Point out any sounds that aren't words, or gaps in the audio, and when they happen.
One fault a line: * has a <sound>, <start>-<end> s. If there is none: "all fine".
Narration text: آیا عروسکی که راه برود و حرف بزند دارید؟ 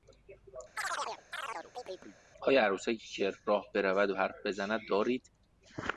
* has a chirp, 0.8-2.2 s